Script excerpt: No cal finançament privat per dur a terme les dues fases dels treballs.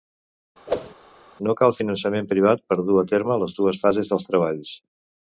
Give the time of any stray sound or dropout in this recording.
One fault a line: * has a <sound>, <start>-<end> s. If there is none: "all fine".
* has a whoosh, 0.7-0.9 s